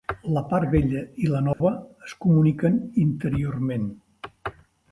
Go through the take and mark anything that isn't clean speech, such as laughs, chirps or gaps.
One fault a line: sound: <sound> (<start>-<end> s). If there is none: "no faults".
sound: dropout (1.5-1.6 s)